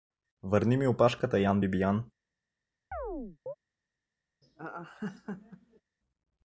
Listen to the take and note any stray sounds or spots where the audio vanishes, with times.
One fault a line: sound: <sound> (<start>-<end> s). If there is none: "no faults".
sound: chirp (2.9-3.5 s)
sound: laugh (4.4-5.8 s)